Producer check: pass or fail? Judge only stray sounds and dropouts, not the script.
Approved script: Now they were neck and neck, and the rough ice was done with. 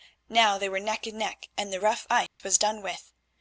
fail